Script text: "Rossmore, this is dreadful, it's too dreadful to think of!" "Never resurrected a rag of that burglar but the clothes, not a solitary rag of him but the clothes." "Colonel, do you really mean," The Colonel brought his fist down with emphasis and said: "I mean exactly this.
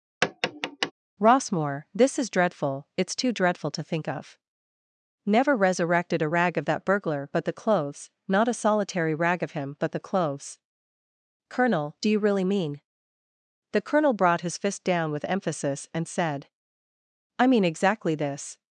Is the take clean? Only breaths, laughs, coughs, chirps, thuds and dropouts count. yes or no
no